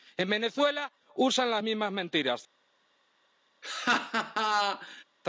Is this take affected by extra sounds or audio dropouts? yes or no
yes